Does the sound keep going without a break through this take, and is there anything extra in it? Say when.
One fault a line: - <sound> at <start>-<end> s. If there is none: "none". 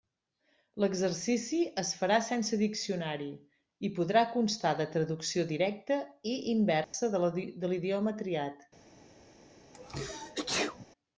- dropout at 6.8-6.9 s
- sneeze at 9.7-10.9 s